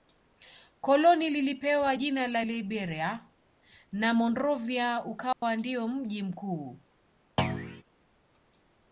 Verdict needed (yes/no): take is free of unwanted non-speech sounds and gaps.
no